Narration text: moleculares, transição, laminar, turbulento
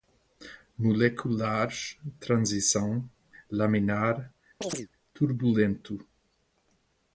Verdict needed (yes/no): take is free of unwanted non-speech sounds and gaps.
no